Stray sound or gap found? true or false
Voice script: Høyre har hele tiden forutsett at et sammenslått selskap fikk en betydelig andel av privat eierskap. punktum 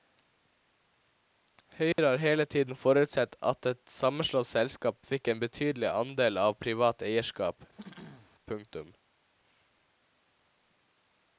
true